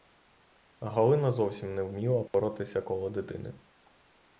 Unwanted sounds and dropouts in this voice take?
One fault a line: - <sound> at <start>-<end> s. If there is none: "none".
- dropout at 2.3-2.3 s